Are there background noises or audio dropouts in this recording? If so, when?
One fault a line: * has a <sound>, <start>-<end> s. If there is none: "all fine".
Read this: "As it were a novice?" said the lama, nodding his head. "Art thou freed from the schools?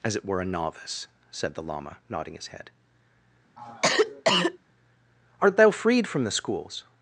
* has a cough, 3.6-4.6 s